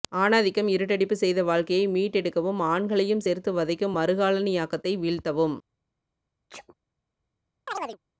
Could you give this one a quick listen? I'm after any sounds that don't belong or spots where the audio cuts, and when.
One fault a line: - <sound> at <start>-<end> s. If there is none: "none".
- sneeze at 6.5-6.7 s
- chirp at 7.7-8.0 s